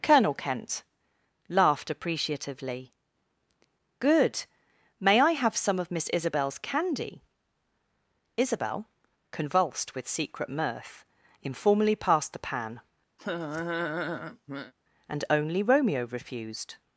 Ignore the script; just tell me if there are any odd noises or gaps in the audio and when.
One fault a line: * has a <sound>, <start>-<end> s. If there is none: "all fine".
* has a laugh, 13.2-14.7 s